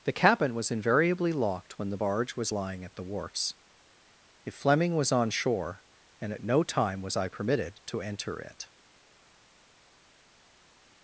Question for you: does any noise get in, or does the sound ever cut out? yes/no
no